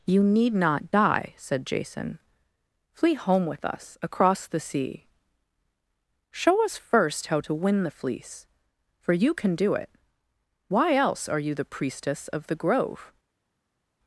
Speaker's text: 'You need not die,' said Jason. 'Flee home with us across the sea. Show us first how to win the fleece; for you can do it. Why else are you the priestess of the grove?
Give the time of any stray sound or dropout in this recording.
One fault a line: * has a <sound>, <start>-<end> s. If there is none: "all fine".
all fine